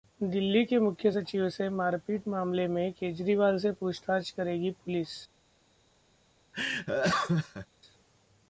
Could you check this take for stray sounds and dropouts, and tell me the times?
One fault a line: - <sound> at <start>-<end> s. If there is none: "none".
- laugh at 6.5-7.7 s